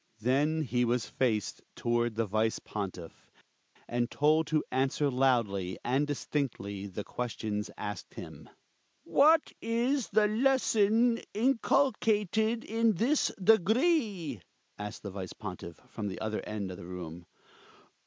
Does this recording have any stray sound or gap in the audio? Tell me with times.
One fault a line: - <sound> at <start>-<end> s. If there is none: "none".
none